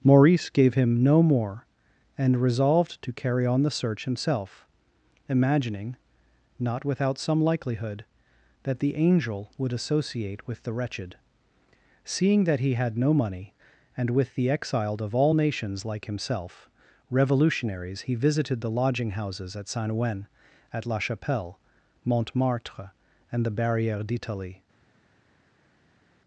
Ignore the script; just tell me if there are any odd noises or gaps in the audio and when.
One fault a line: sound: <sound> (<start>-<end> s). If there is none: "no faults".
no faults